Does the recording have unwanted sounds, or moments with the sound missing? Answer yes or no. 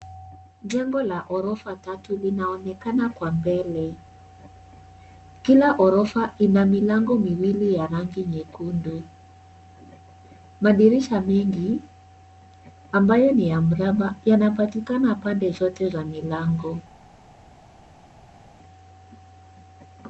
no